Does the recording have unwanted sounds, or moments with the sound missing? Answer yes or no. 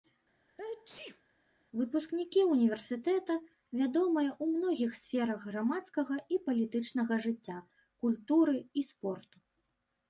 yes